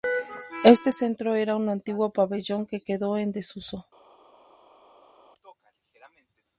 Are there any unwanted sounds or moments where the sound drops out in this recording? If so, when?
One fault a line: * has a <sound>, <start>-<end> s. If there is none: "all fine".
all fine